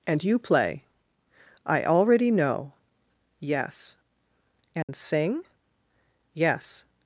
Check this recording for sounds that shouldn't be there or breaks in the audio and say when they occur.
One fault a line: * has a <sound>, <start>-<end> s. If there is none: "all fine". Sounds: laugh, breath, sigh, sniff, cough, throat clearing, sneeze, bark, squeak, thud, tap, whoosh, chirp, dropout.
* has a dropout, 4.8-4.9 s